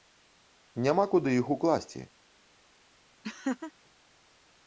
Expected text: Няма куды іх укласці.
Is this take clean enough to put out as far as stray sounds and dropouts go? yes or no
no